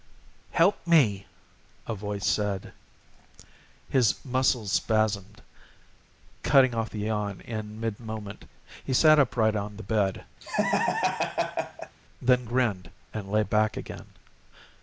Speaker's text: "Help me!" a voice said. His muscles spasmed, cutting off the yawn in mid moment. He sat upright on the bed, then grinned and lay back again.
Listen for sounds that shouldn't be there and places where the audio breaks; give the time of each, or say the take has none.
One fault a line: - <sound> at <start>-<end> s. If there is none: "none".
- laugh at 10.4-12.0 s